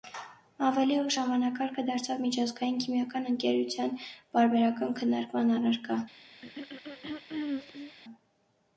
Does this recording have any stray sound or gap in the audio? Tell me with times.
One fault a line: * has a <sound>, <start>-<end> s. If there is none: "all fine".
* has a throat clearing, 6.4-8.0 s